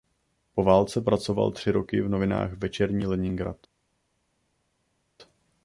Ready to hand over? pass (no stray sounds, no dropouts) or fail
pass